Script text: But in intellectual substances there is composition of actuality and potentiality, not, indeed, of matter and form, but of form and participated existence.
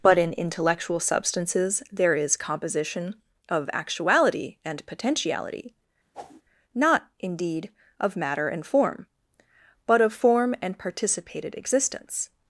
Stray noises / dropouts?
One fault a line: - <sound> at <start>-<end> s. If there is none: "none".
- whoosh at 6.1-6.4 s